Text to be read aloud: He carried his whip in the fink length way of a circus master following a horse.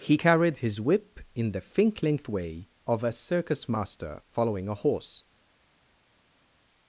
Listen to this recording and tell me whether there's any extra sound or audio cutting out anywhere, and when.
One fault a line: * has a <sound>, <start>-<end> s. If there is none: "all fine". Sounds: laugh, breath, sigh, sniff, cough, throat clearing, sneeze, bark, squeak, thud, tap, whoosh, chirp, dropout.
all fine